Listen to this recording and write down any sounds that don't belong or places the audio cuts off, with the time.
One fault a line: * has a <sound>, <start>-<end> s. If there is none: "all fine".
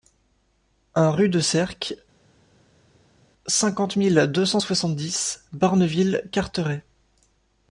all fine